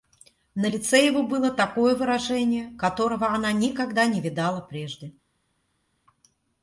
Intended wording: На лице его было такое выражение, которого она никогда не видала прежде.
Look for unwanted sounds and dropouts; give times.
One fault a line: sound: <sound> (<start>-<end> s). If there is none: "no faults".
no faults